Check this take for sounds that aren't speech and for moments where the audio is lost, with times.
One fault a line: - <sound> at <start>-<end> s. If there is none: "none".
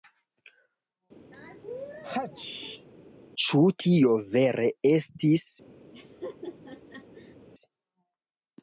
- sneeze at 1.3-2.9 s
- laugh at 5.9-7.4 s